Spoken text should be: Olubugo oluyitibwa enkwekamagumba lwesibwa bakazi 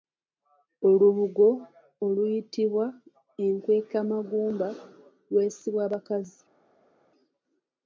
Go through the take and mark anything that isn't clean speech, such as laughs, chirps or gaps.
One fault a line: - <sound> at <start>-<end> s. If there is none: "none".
none